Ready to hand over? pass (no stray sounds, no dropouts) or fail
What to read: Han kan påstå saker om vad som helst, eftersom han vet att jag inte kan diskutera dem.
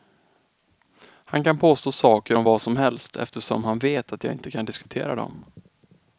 fail